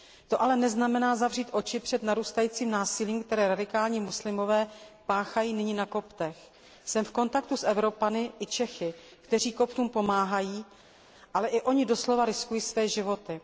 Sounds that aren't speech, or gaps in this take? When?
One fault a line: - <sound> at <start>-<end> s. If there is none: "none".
none